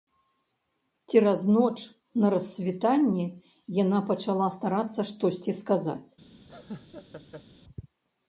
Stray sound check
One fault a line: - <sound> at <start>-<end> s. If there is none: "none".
- laugh at 6.5-7.5 s